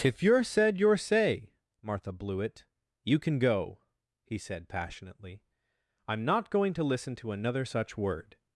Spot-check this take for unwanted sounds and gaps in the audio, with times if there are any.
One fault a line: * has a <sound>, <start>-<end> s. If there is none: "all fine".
all fine